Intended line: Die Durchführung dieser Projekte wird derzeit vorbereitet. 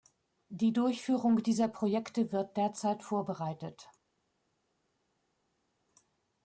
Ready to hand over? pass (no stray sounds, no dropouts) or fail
pass